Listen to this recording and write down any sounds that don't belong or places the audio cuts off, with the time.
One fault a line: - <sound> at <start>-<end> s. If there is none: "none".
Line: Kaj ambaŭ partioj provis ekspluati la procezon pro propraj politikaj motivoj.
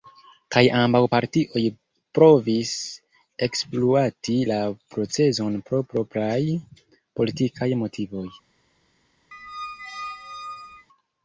- squeak at 9.3-10.9 s